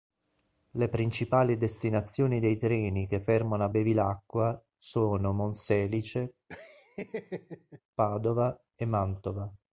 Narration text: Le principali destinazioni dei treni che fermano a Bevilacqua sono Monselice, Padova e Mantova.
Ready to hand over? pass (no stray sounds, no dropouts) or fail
fail